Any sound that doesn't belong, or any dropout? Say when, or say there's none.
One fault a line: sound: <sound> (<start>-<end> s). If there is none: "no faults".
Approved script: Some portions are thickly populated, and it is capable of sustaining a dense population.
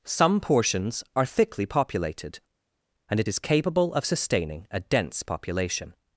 no faults